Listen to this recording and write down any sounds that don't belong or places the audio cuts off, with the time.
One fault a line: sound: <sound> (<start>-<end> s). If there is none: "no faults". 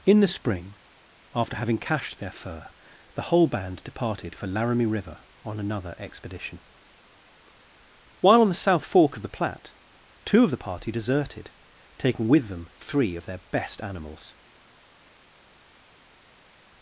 no faults